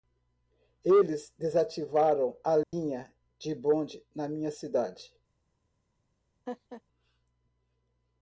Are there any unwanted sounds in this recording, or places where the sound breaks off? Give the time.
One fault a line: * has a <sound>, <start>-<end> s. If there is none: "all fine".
* has a dropout, 2.6-2.7 s
* has a laugh, 6.5-6.8 s